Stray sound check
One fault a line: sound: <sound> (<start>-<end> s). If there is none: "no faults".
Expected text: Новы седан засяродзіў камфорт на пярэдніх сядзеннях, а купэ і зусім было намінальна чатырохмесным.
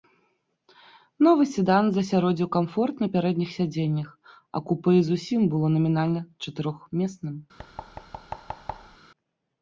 sound: thud (7.6-9.0 s)